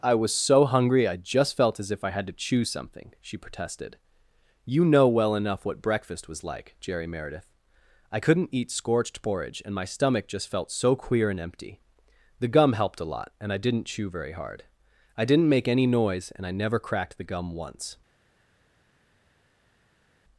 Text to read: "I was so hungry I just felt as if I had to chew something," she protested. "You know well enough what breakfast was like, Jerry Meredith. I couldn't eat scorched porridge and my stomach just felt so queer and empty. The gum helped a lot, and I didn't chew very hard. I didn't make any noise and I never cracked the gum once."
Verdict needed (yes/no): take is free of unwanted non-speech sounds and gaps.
yes